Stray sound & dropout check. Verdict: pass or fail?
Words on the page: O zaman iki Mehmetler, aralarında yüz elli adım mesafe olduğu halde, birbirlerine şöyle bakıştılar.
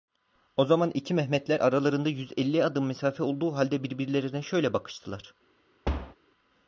fail